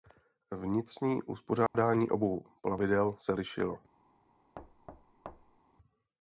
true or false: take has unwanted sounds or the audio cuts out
true